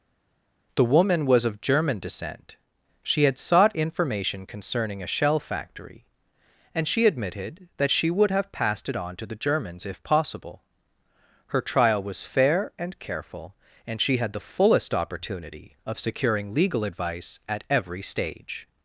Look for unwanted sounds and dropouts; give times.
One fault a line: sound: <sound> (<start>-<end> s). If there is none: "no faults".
no faults